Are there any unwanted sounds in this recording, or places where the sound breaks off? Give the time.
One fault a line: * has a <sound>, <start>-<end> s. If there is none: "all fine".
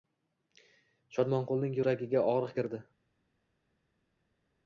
all fine